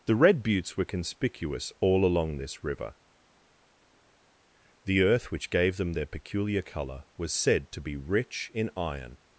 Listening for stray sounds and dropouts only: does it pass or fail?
pass